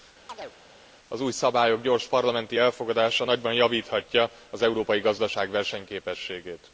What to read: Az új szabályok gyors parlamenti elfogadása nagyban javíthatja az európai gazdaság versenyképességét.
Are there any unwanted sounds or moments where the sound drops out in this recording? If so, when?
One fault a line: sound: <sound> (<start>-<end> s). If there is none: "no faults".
sound: chirp (0.3-0.6 s)